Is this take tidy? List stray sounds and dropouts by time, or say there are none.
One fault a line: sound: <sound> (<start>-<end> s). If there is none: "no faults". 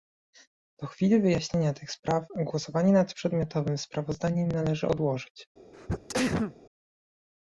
sound: sneeze (5.7-6.6 s)